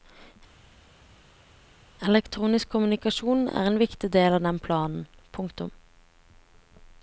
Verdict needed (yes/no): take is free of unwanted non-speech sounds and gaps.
yes